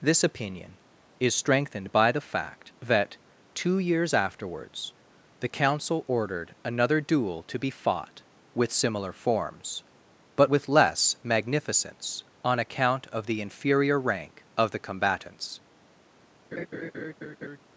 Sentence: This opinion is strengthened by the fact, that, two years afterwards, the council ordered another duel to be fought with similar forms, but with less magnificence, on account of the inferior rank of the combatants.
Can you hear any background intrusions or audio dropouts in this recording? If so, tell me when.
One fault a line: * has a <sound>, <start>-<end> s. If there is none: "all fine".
* has a laugh, 16.5-17.6 s